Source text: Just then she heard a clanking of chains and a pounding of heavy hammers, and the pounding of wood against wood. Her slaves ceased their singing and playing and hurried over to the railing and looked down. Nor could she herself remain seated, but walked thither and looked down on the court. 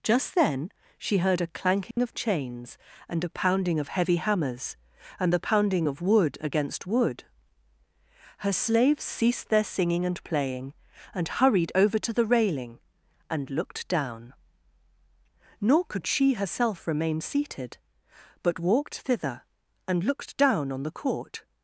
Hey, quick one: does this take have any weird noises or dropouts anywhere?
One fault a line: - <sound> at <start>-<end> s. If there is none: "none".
- dropout at 1.9-2.0 s